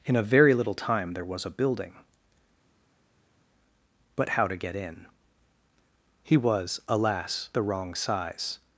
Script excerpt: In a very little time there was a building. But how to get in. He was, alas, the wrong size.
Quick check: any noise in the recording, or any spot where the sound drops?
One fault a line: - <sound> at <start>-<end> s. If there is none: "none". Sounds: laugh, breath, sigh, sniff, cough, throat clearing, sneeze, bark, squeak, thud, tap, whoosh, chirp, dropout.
none